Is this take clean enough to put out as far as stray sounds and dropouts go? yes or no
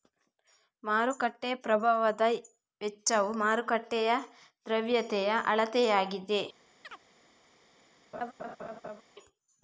no